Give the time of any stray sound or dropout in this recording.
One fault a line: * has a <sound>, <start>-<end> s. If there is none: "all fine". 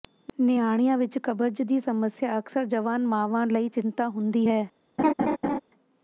* has a laugh, 5.0-5.6 s